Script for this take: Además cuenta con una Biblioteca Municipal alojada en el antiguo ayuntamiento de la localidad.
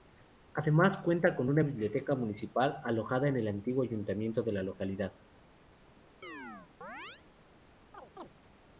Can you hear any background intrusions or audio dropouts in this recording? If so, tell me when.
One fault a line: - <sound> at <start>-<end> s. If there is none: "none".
- chirp at 6.2-7.2 s
- chirp at 7.9-8.3 s